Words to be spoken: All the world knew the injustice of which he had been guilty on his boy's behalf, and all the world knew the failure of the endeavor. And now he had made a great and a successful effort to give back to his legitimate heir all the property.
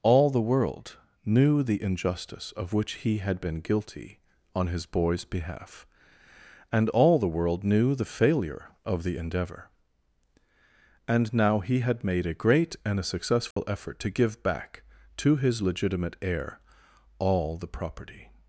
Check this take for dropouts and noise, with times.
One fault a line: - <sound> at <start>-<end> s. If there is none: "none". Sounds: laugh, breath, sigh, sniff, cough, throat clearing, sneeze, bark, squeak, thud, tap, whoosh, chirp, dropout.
- dropout at 13.5-13.6 s